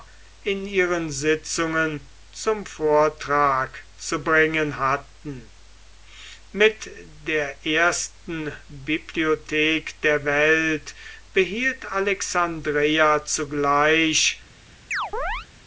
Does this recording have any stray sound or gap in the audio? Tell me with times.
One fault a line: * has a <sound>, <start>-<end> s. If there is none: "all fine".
* has a chirp, 14.9-15.5 s